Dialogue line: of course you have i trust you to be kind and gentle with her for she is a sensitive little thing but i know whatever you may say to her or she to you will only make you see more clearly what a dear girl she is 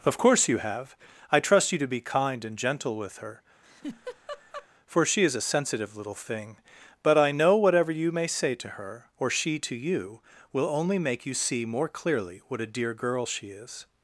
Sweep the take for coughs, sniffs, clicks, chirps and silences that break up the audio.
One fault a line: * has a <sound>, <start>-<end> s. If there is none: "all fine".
* has a laugh, 3.6-4.7 s